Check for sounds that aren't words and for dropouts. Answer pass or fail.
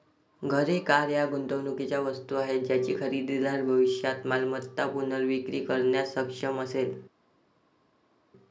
pass